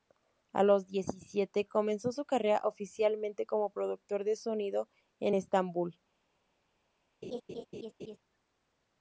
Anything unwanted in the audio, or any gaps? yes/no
yes